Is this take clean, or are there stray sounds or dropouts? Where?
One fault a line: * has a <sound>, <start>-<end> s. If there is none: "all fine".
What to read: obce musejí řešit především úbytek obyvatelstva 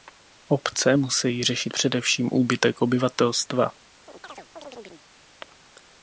* has a chirp, 4.1-5.1 s